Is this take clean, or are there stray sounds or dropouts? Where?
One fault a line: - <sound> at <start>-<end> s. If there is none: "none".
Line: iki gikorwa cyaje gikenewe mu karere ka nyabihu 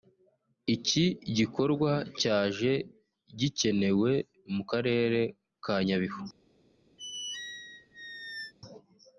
- squeak at 7.0-8.5 s